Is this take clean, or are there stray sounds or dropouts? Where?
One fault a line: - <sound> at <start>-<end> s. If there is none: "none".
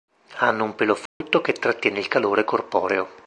- dropout at 1.1-1.2 s